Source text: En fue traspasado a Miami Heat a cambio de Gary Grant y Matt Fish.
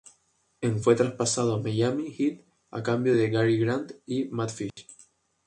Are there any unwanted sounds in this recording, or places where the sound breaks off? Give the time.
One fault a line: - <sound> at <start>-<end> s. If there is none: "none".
- dropout at 4.7-4.8 s